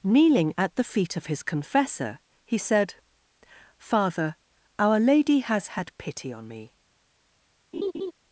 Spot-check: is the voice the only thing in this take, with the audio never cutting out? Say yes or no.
no